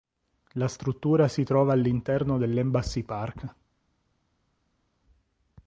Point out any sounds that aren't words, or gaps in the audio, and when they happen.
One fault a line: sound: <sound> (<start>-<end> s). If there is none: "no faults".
no faults